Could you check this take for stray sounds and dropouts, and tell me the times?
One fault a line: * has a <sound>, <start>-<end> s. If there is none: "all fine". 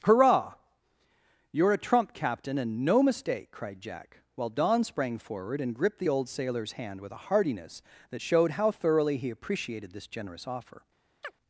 * has a chirp, 11.2-11.4 s